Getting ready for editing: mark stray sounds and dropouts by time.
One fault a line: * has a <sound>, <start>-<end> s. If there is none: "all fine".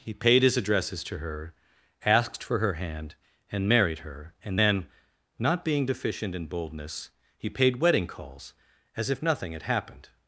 all fine